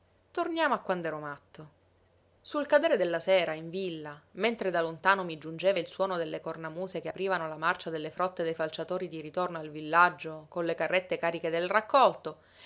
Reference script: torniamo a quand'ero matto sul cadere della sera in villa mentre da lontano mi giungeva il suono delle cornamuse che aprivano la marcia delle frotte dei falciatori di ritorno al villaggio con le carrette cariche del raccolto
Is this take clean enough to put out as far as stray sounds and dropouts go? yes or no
yes